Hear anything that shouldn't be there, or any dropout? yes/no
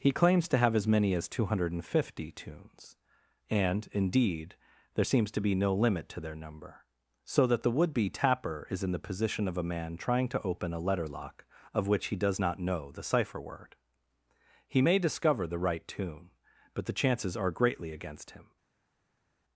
no